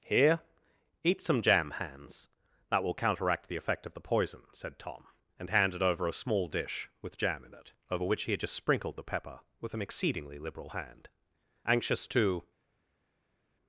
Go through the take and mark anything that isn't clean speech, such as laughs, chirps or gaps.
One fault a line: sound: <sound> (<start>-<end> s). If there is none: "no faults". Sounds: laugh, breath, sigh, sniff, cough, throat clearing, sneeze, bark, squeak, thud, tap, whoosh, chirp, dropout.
no faults